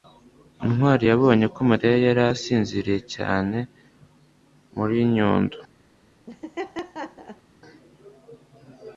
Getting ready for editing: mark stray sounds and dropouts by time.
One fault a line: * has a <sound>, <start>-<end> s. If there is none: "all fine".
* has a laugh, 6.3-7.4 s